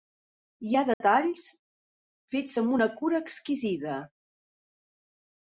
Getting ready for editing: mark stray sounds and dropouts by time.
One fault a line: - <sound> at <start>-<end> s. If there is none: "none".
- dropout at 0.9-1.0 s